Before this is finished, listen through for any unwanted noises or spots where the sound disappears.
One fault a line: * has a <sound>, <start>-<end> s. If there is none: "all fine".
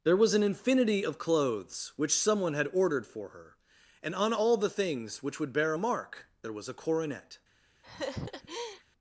* has a laugh, 7.8-8.8 s